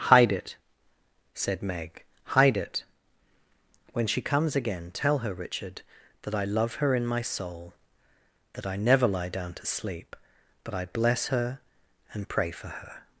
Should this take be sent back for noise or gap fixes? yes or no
no